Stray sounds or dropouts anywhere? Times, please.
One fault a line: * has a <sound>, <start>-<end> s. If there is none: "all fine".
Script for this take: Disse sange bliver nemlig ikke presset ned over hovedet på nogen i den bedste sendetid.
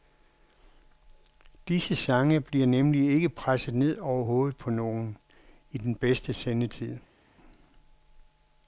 all fine